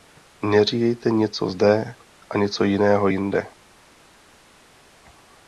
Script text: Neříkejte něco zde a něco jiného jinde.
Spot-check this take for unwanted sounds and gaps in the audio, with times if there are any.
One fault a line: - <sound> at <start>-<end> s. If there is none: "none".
none